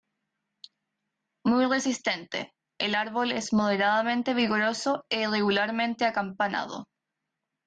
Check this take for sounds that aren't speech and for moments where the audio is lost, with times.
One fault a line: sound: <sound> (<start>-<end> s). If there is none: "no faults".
no faults